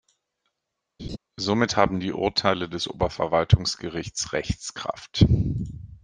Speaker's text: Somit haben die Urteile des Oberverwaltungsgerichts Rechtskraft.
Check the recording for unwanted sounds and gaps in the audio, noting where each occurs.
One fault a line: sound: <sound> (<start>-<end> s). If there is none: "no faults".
sound: laugh (1.0-1.2 s)